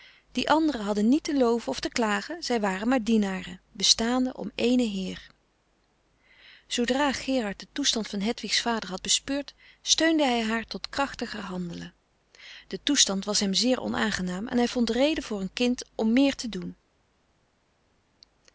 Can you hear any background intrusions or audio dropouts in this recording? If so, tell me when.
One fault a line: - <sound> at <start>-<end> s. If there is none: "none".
none